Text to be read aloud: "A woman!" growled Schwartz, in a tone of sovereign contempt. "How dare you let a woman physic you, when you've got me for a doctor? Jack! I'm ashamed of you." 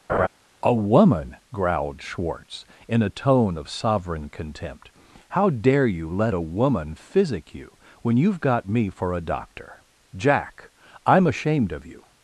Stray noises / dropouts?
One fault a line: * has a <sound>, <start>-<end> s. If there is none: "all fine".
* has a laugh, 0.1-0.3 s